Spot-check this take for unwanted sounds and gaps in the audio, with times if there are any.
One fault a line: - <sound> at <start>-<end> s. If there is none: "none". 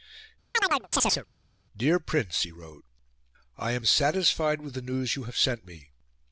- chirp at 0.5-1.3 s